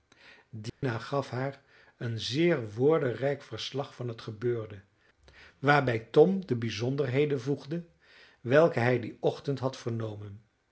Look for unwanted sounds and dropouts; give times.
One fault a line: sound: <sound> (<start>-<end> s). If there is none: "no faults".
sound: dropout (0.7-0.8 s)